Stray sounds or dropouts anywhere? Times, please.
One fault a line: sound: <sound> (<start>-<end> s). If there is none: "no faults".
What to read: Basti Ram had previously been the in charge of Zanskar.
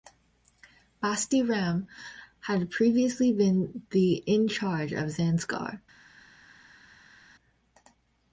no faults